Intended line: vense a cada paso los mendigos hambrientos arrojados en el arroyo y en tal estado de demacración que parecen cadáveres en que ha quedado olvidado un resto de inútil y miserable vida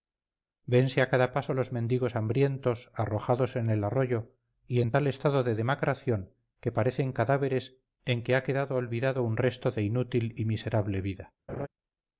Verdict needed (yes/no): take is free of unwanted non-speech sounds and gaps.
no